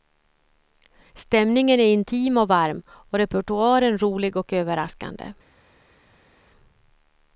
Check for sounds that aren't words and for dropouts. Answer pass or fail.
pass